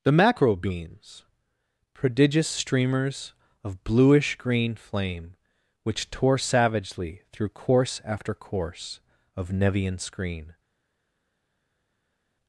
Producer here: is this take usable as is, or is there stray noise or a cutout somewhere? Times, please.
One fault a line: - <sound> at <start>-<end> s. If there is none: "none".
none